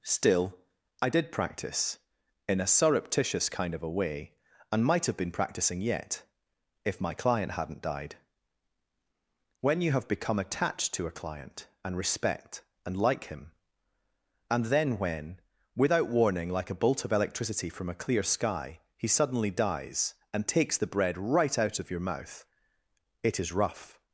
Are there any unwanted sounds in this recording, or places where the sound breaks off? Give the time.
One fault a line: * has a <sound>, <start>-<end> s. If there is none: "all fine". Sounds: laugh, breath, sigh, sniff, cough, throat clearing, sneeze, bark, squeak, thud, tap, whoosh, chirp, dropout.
all fine